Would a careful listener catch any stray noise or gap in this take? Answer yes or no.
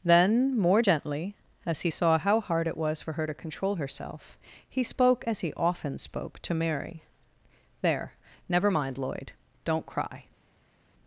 no